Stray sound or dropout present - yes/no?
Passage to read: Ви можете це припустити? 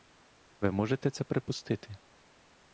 no